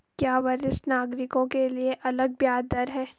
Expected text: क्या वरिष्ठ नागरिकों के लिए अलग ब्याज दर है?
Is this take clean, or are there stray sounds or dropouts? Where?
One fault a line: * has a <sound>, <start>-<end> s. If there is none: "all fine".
all fine